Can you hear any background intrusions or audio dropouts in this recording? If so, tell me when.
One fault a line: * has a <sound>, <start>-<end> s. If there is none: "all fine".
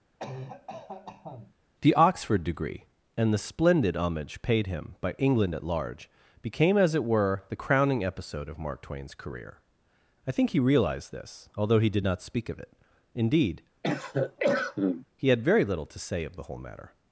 * has a cough, 0.2-1.5 s
* has a cough, 13.8-15.1 s